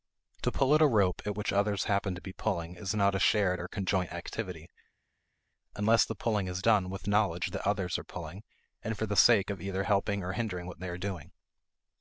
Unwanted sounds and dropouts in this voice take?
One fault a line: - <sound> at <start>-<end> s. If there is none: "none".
none